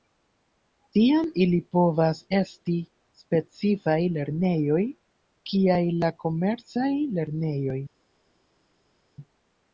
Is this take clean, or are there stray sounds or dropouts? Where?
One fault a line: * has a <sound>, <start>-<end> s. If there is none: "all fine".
all fine